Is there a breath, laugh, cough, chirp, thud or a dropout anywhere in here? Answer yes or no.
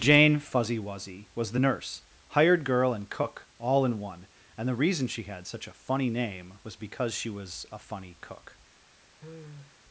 yes